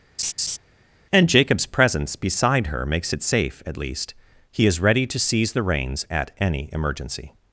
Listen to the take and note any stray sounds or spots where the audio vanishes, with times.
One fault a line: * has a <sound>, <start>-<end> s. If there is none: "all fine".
* has a laugh, 0.2-0.6 s